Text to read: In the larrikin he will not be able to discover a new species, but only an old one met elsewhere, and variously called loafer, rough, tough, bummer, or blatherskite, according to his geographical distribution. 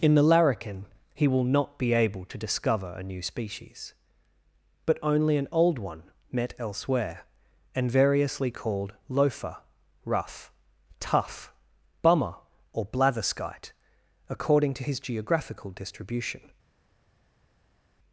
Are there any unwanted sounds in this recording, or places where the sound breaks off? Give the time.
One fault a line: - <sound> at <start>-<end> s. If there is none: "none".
none